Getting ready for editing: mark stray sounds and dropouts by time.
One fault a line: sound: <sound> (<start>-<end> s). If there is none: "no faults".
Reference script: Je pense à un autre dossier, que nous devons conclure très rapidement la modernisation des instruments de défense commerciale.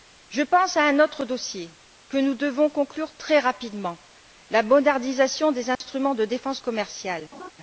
sound: dropout (5.8-5.8 s)
sound: laugh (7.3-7.5 s)